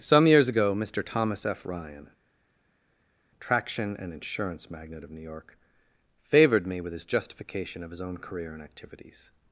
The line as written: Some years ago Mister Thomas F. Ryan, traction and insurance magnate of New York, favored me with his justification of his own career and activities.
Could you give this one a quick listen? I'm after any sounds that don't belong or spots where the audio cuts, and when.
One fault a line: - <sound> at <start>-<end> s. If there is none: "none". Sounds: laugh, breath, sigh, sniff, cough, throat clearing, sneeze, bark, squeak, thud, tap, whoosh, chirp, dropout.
none